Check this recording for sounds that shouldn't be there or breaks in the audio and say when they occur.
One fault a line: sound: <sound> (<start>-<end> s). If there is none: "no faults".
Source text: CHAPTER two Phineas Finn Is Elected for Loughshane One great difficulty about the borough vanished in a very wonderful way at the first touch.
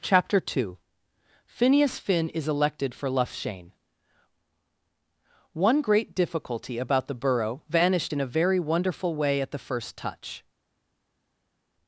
no faults